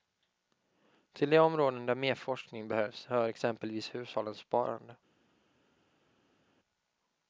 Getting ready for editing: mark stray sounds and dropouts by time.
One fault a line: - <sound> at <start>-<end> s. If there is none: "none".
none